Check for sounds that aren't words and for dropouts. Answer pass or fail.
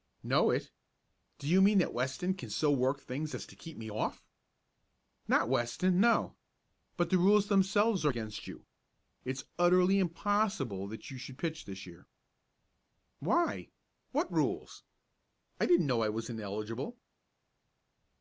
pass